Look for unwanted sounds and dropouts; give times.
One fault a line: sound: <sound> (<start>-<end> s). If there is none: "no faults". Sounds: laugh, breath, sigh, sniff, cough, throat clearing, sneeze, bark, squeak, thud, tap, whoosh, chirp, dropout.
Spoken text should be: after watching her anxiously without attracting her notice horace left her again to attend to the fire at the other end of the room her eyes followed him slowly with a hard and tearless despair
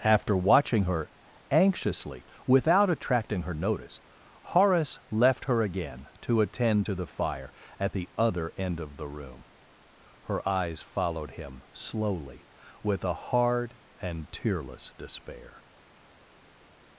no faults